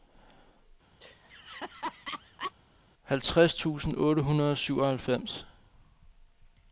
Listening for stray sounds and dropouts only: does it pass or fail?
fail